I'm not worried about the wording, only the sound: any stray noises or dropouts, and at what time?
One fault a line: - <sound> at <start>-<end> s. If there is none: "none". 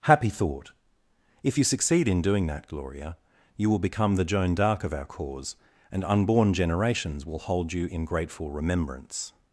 none